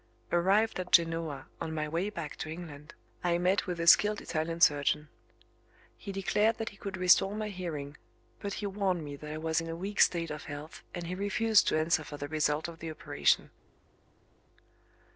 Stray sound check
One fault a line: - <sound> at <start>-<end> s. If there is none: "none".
none